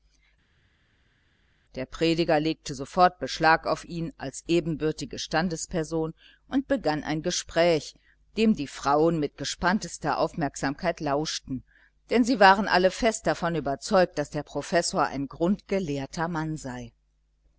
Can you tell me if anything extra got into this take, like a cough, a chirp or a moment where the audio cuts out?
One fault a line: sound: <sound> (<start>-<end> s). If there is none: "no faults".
no faults